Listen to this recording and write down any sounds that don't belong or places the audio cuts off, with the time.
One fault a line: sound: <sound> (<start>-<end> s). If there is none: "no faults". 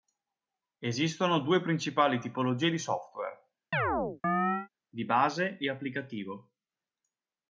sound: chirp (3.7-4.7 s)